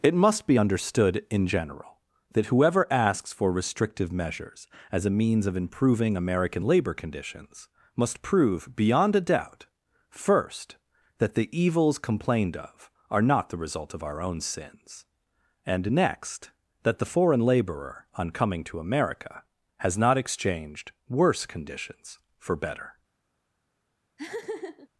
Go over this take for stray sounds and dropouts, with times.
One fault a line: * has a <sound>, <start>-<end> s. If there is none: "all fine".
* has a laugh, 24.2-24.9 s